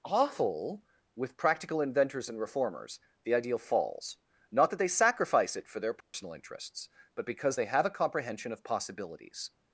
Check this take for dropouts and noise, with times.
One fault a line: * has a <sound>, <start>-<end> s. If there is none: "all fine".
* has a dropout, 6.0-6.1 s